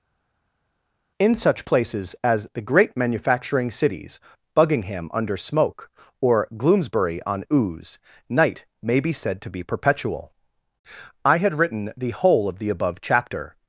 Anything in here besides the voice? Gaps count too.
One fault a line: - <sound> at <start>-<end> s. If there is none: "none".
none